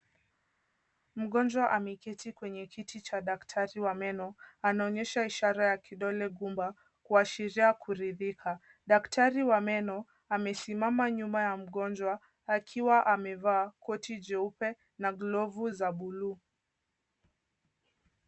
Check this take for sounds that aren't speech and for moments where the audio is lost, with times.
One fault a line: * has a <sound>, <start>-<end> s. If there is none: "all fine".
all fine